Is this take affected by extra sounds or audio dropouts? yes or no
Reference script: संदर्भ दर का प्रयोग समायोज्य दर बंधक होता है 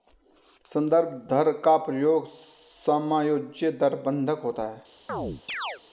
yes